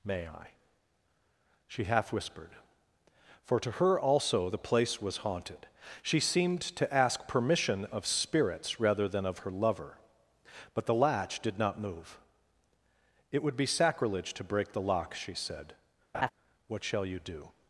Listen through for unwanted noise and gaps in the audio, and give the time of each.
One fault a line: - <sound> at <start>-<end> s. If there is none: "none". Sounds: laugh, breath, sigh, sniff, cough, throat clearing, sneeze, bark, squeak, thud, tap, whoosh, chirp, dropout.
- laugh at 16.1-16.3 s